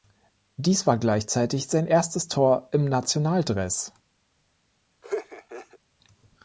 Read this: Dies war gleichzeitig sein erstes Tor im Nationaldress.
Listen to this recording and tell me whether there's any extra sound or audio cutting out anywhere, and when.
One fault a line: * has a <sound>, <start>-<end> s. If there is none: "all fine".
* has a laugh, 5.0-5.8 s